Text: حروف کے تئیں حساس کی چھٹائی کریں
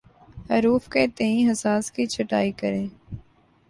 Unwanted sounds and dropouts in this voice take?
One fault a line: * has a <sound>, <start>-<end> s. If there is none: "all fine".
all fine